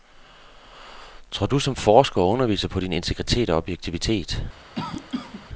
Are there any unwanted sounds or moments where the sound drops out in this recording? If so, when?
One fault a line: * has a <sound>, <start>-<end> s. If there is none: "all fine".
* has a cough, 4.8-5.5 s